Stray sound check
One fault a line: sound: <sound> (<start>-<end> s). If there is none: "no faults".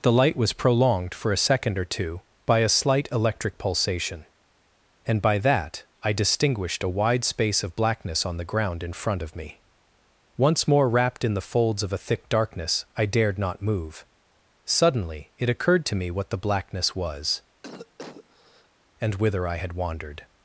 sound: cough (17.6-18.7 s)